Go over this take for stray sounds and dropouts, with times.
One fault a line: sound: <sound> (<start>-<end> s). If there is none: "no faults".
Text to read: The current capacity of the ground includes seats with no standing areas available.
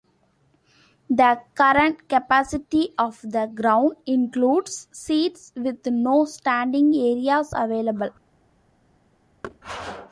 sound: thud (9.4-9.6 s)